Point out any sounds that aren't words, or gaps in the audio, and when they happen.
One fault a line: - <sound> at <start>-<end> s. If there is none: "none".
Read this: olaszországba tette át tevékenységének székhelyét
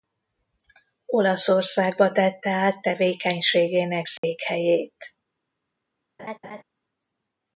- dropout at 4.2-4.2 s
- laugh at 6.2-6.6 s